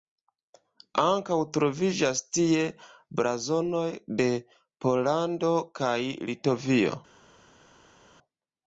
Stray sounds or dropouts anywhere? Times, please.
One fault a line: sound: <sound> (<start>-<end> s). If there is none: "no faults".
no faults